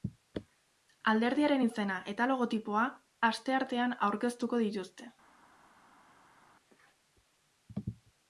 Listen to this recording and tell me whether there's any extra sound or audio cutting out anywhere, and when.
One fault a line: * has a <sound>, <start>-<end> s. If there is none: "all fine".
all fine